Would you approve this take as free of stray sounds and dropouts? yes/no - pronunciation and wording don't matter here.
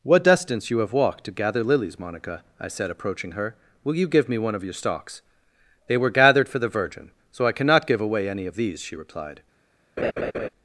no